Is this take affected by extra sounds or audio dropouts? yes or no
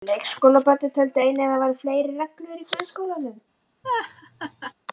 yes